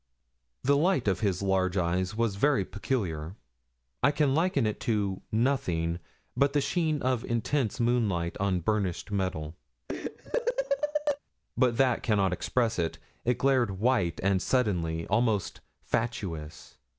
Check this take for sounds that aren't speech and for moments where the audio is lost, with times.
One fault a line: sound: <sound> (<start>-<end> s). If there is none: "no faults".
sound: laugh (9.9-11.2 s)